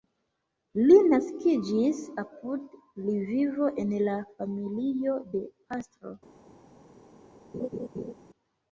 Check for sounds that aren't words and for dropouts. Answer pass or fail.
fail